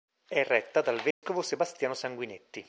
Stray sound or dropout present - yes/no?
yes